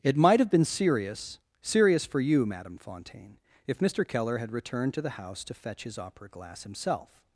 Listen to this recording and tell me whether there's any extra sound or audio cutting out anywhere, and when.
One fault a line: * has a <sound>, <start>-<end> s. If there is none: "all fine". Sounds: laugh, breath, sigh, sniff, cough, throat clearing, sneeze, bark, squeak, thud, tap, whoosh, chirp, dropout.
all fine